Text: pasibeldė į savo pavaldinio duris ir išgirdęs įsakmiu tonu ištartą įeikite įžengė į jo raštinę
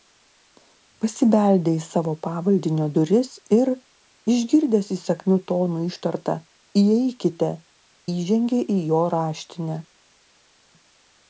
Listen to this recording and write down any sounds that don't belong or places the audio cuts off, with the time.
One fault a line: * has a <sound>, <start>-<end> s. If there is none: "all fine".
all fine